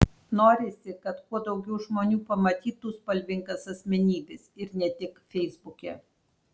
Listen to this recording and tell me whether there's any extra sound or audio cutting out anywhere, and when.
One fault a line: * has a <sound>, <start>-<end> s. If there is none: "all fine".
all fine